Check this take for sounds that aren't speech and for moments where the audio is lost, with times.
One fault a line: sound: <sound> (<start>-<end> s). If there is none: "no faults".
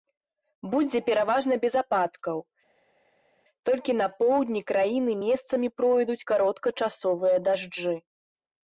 no faults